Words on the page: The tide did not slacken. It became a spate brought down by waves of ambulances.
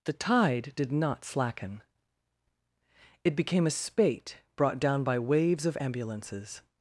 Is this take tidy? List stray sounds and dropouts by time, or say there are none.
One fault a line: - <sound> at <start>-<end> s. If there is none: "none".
none